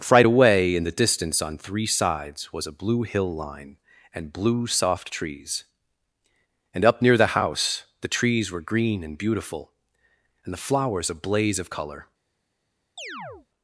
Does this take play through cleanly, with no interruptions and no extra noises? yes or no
no